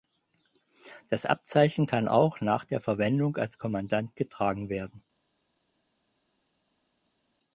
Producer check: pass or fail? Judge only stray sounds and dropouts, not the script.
pass